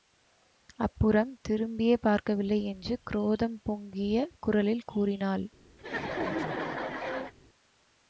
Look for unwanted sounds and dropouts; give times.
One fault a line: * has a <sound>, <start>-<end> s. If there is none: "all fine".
* has a laugh, 5.8-7.3 s